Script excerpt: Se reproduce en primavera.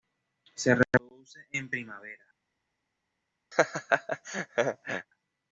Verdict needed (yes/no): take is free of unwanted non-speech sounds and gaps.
no